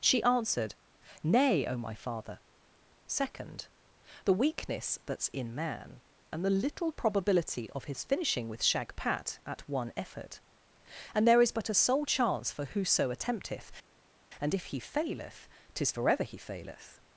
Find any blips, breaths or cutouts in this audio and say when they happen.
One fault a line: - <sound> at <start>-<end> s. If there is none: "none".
none